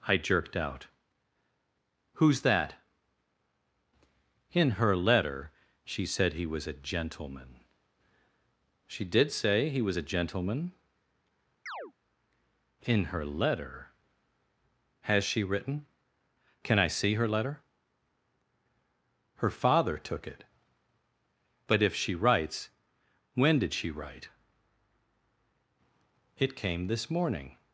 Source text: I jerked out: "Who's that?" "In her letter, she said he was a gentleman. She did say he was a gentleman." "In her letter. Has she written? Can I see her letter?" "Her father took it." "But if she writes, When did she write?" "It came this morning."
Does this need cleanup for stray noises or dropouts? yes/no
yes